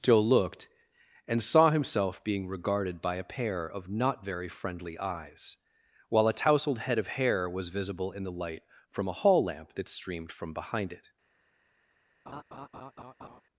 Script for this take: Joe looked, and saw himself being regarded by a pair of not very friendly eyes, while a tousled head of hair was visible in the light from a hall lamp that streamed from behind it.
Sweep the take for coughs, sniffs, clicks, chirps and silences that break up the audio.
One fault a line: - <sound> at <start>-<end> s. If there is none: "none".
- laugh at 12.3-13.4 s